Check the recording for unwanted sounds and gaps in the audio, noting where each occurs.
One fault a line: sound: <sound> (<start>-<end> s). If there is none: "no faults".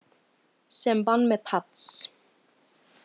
no faults